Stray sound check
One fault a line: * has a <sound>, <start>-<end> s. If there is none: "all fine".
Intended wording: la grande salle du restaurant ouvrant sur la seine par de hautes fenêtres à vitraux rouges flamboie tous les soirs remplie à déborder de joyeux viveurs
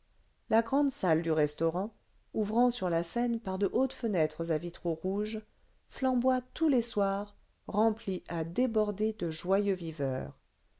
all fine